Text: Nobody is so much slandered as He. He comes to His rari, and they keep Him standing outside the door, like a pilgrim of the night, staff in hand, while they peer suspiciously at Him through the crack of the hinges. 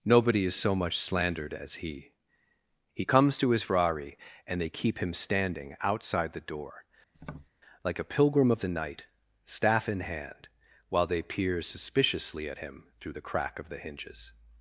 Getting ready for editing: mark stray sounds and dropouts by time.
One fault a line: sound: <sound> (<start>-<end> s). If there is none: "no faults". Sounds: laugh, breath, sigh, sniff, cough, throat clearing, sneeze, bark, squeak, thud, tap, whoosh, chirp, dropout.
sound: tap (7.1-7.5 s)